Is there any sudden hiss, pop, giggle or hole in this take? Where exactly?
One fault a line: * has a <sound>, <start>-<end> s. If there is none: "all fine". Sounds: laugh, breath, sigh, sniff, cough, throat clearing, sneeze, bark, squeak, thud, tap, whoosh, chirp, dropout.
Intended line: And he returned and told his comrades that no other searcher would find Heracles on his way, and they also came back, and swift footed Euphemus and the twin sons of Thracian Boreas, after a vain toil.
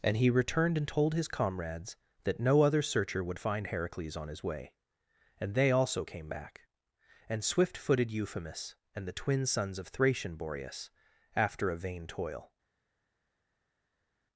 all fine